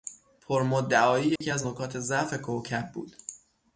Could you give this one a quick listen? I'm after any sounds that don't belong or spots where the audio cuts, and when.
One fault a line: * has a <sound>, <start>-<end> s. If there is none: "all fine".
* has a dropout, 1.4-1.4 s